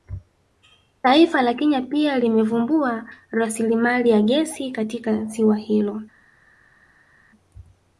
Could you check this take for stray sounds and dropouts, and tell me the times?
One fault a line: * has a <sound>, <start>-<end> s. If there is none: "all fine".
all fine